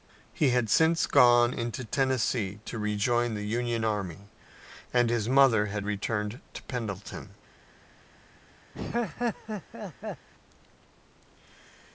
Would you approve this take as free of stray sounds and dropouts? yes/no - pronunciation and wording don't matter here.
no